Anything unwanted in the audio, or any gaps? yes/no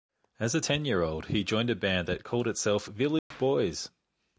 yes